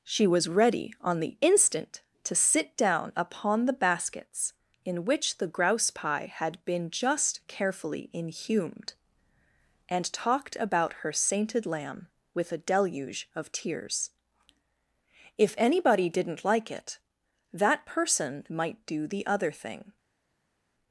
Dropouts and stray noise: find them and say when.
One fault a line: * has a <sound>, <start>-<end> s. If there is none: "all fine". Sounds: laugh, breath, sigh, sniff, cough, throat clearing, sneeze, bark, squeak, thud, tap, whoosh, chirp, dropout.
all fine